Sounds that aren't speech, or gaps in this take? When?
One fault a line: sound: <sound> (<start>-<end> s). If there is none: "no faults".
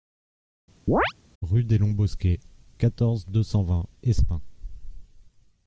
sound: chirp (0.9-1.1 s)